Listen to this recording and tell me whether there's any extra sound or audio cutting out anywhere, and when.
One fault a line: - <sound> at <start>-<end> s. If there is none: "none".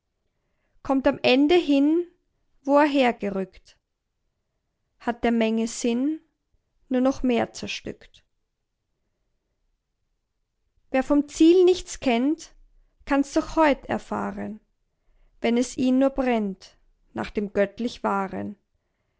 none